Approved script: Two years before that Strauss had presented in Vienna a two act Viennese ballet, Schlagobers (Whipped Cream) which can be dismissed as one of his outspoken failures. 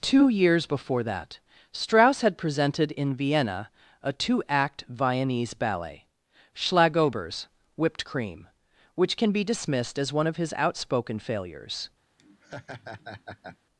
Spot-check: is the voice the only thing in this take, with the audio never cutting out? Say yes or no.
no